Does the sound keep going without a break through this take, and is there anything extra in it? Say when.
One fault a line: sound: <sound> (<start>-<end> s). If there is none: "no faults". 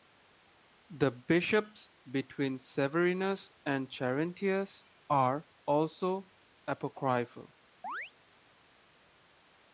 sound: chirp (7.8-8.1 s)